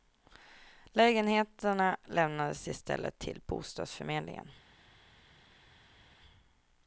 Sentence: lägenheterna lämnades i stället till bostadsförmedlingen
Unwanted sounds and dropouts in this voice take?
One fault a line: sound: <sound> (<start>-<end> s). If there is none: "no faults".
no faults